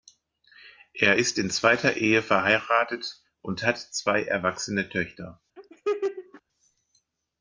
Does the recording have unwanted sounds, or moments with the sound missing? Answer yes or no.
yes